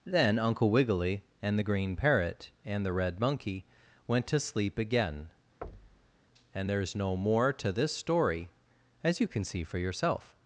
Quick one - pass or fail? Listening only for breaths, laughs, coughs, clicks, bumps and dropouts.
fail